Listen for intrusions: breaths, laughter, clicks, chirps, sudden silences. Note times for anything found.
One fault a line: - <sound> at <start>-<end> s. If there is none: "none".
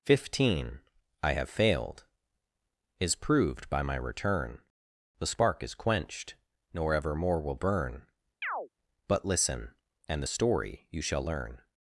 - chirp at 8.4-8.7 s